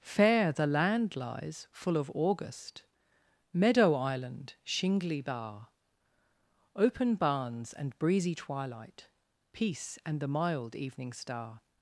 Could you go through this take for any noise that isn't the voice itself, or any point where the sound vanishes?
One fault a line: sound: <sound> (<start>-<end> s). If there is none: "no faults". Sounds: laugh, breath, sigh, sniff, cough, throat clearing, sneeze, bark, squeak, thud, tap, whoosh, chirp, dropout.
no faults